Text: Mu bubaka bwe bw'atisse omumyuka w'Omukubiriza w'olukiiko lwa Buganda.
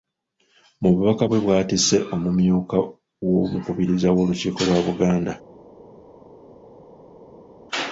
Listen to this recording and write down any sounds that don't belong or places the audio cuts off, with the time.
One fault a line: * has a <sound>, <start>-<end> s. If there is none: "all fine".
all fine